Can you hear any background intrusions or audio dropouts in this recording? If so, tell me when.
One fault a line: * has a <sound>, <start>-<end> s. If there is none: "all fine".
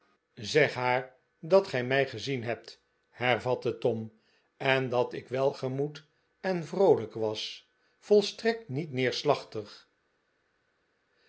all fine